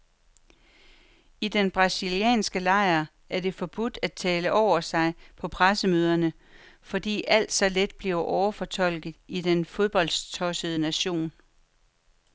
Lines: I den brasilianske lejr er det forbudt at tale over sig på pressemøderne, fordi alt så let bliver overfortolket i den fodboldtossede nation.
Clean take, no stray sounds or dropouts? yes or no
yes